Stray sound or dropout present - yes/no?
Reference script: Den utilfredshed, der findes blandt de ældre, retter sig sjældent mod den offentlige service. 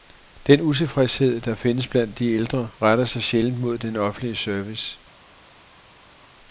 no